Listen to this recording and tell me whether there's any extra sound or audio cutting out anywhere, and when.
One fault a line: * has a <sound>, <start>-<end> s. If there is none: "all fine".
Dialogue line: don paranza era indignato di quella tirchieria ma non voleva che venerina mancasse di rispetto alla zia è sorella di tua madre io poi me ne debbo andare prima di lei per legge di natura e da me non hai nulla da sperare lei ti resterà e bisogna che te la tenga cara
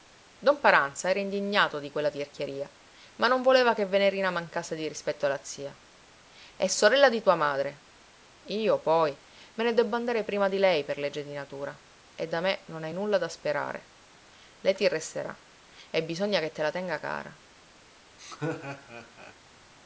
* has a laugh, 18.2-19.3 s